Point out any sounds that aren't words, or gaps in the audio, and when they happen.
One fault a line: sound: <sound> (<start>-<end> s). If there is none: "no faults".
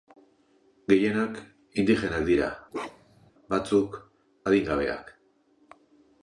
sound: bark (2.7-3.3 s)